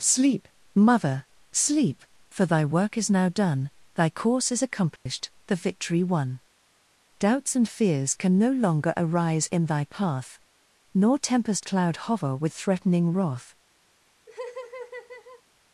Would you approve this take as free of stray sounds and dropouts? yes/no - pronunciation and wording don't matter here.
no